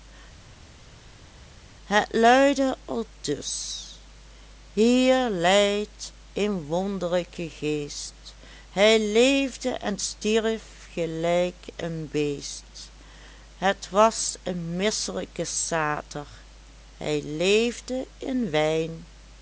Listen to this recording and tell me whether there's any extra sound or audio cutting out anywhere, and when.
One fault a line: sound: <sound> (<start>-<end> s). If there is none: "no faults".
no faults